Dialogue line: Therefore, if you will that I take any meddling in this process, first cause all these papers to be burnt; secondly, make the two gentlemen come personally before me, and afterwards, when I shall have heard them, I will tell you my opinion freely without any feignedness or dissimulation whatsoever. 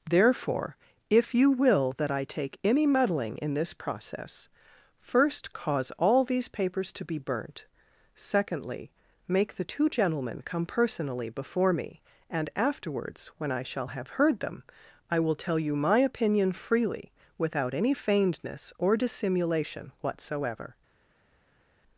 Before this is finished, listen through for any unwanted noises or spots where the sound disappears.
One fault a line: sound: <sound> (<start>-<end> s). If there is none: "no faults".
no faults